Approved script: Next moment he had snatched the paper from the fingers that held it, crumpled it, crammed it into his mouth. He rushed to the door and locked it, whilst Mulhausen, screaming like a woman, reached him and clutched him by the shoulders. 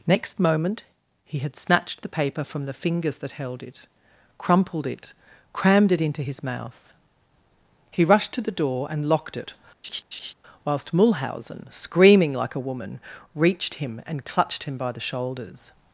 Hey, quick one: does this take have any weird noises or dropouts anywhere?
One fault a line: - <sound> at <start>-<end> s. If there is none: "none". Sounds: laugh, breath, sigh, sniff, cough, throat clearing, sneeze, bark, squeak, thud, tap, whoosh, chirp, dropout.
- laugh at 9.8-10.3 s